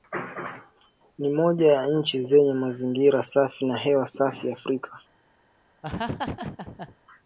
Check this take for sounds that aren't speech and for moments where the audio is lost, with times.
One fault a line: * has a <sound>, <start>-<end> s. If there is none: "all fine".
* has a laugh, 5.8-7.0 s